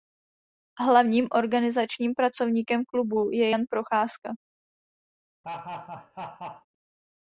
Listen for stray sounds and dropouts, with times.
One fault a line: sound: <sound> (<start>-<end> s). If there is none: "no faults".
sound: laugh (5.4-6.7 s)